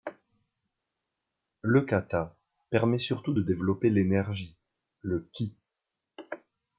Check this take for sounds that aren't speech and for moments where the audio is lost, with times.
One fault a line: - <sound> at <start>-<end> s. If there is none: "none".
none